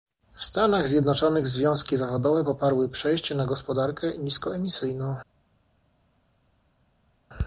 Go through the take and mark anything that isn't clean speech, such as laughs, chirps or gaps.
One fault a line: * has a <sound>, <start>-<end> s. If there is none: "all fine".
all fine